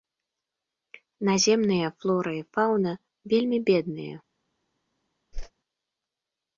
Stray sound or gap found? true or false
true